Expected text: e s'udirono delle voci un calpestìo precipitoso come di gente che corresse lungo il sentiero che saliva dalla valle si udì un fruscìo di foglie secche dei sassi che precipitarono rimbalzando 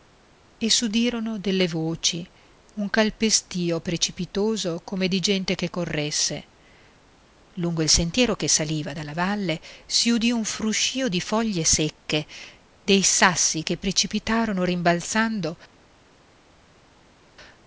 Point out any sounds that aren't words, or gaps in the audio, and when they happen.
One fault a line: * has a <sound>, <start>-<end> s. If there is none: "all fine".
all fine